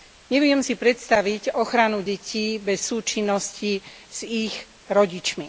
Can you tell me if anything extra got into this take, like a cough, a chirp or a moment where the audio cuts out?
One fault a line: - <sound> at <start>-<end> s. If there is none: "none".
none